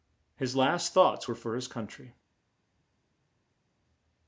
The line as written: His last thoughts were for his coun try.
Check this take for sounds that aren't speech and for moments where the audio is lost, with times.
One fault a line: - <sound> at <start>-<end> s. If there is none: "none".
none